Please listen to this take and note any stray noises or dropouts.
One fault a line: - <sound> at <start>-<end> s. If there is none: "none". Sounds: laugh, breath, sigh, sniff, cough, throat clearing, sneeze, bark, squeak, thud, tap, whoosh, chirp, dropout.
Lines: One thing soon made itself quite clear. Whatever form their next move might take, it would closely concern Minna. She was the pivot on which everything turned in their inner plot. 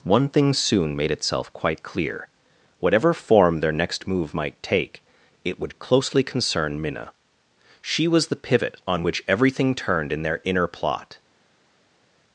none